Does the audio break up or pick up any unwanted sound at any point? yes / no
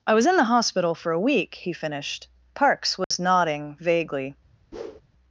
yes